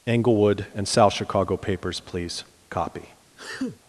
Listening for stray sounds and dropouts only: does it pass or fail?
fail